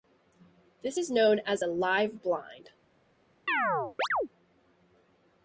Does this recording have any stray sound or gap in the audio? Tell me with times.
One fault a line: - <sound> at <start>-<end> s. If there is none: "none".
- chirp at 3.5-4.3 s